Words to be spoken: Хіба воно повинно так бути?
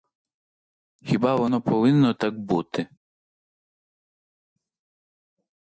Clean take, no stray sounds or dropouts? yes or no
yes